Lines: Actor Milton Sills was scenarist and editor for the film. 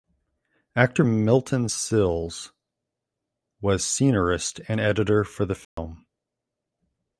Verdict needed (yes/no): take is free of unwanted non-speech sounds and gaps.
no